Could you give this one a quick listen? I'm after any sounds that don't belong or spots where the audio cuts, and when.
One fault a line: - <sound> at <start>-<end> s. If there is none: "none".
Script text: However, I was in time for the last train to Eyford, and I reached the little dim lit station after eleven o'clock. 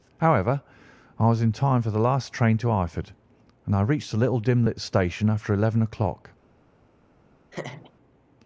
- laugh at 7.5-7.9 s